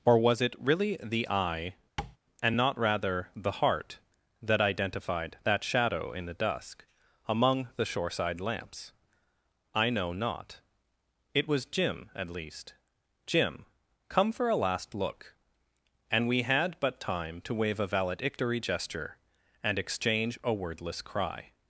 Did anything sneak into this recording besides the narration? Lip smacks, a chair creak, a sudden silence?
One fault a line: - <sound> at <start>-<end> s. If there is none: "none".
- tap at 2.0-2.2 s